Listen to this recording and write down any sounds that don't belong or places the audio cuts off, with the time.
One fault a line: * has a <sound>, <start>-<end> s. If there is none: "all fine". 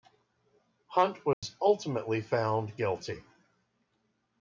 * has a dropout, 1.3-1.4 s